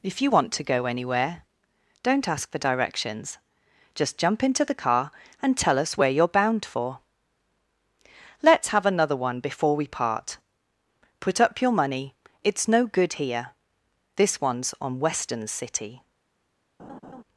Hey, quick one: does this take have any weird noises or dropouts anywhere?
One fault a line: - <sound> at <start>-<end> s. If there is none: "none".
- laugh at 16.8-17.2 s